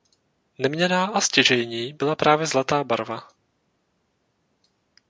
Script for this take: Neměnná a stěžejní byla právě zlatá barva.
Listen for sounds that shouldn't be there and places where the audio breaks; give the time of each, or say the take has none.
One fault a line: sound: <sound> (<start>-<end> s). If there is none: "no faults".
no faults